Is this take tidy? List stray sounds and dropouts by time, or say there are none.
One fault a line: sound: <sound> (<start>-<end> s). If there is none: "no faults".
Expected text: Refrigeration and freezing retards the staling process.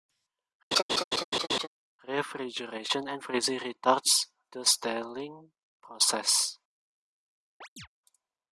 sound: laugh (0.7-1.7 s)
sound: chirp (7.6-7.9 s)